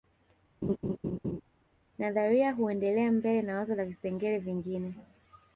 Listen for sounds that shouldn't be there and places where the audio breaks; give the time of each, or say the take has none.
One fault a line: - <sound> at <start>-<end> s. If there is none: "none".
- laugh at 0.6-1.4 s